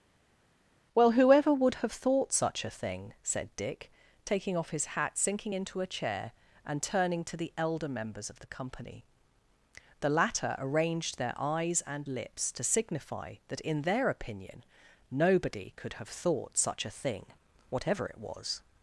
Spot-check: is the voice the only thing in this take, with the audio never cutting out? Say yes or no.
yes